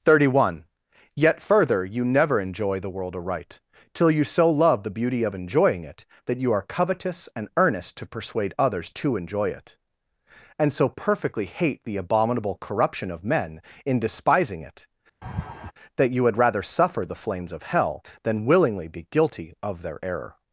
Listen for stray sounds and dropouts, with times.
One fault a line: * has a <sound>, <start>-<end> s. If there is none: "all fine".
* has a laugh, 15.2-15.7 s